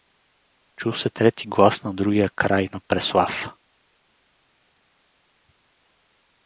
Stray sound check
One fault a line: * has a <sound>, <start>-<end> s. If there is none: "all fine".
all fine